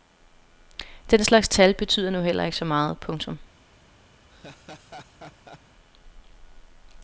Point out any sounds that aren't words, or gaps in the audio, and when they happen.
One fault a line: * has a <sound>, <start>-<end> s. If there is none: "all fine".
* has a laugh, 4.3-5.6 s